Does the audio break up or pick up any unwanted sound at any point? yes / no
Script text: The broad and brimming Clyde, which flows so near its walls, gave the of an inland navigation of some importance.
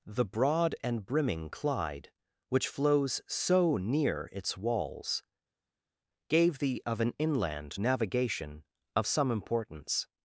no